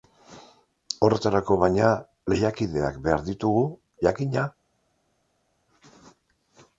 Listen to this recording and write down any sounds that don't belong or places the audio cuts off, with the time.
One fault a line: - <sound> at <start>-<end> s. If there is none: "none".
none